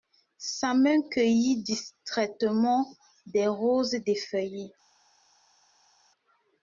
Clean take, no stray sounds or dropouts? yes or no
yes